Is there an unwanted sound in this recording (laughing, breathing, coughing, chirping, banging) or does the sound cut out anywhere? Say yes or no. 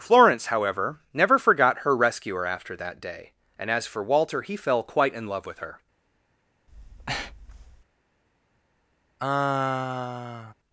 yes